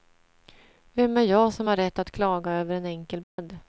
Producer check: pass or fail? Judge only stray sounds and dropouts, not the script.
fail